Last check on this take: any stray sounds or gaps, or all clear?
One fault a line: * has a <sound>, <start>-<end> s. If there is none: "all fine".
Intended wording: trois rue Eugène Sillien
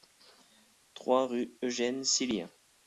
all fine